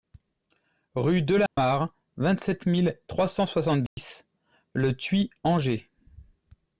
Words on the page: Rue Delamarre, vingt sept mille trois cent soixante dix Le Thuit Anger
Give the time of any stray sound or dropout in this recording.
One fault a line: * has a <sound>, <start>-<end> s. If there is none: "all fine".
* has a dropout, 1.5-1.6 s
* has a dropout, 3.9-4.0 s